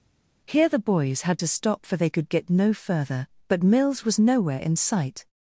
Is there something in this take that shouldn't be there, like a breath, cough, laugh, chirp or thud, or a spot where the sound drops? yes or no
no